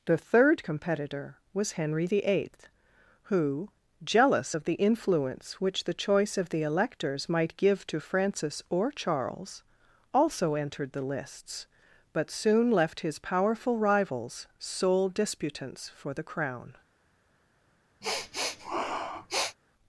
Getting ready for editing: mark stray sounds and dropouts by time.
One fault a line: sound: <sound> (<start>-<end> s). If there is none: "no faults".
sound: sniff (18.0-19.6 s)